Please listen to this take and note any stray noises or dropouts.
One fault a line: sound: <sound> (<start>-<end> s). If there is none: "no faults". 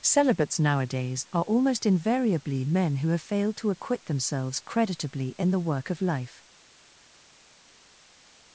no faults